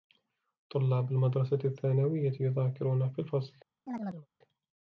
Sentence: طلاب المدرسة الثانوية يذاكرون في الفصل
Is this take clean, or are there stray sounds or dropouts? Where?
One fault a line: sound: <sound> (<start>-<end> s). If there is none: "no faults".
sound: chirp (3.9-4.3 s)